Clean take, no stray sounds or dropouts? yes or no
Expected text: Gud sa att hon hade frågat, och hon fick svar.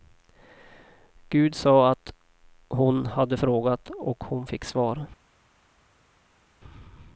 yes